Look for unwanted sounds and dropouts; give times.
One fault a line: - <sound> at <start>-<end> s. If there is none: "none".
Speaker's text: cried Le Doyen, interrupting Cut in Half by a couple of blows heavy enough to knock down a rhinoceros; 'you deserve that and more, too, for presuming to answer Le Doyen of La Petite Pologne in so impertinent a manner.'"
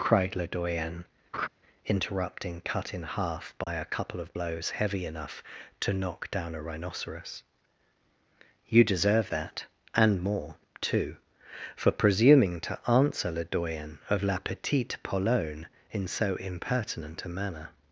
- laugh at 1.3-1.5 s
- dropout at 3.6-3.7 s